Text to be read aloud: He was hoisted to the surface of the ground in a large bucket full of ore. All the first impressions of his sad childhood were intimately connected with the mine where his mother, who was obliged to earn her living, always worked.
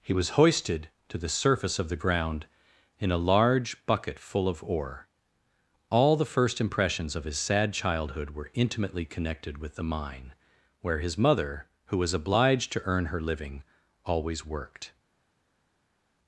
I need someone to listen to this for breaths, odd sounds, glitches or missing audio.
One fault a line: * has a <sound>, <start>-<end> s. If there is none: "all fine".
all fine